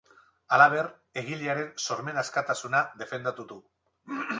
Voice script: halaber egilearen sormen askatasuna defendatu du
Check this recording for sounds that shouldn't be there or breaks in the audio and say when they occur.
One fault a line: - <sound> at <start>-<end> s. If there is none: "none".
none